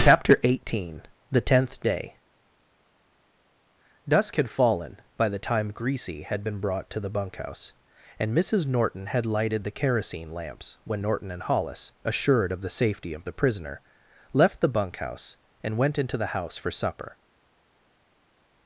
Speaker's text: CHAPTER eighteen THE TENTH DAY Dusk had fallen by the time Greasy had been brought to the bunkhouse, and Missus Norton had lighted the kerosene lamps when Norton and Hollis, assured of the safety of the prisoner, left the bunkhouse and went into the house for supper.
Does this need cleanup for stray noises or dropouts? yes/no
no